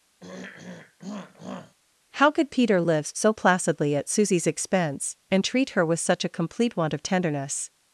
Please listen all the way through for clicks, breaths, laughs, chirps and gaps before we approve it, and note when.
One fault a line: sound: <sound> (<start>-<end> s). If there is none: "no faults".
sound: throat clearing (0.2-1.7 s)